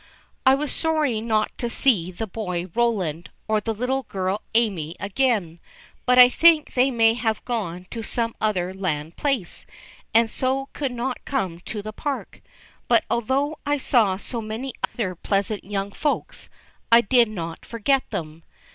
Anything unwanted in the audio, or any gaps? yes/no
yes